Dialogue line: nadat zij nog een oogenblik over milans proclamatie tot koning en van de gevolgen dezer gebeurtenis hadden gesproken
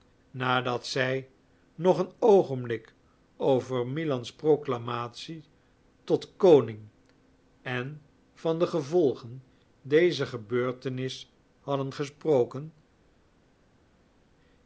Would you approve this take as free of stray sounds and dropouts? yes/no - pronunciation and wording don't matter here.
yes